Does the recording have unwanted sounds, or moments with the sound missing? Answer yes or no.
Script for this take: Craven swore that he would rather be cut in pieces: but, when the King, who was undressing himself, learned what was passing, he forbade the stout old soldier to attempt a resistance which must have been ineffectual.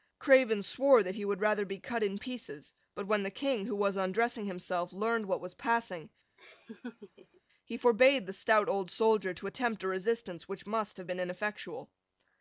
yes